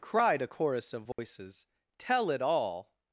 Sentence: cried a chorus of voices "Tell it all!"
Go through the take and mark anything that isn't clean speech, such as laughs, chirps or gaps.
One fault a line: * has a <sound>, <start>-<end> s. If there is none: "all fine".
* has a dropout, 1.1-1.2 s